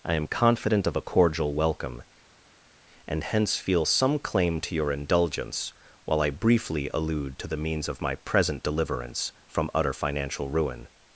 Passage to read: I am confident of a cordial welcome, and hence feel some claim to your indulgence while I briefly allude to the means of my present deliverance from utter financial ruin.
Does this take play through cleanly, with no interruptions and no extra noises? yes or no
yes